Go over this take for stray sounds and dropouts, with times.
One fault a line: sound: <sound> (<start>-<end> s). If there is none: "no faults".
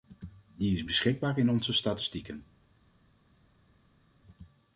no faults